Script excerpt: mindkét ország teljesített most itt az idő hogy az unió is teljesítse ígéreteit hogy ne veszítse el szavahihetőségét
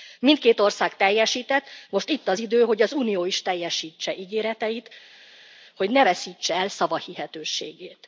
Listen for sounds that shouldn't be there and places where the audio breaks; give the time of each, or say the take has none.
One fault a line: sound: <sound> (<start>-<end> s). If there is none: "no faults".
no faults